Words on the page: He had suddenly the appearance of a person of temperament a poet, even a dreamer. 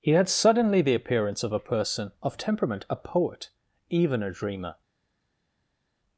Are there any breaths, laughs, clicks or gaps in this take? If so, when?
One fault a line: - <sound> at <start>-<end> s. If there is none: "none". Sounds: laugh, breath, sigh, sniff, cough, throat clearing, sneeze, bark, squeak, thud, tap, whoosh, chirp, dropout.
none